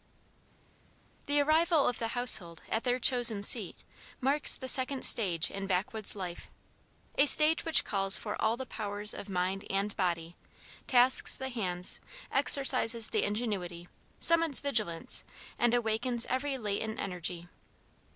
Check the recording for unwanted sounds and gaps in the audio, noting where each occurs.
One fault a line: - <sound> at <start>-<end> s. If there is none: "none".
none